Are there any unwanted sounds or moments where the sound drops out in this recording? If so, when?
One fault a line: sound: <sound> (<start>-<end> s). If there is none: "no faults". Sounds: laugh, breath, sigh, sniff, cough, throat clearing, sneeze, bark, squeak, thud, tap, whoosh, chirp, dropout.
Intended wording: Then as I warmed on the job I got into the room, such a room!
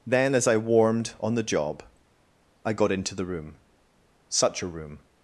no faults